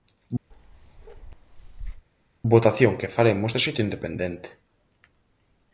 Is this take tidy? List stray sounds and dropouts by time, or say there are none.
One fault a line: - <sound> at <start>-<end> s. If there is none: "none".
- bark at 0.5-2.1 s